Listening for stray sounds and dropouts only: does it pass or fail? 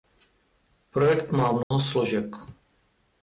fail